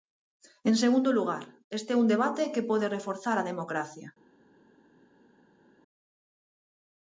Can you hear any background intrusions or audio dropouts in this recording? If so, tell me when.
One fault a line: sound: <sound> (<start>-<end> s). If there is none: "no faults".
no faults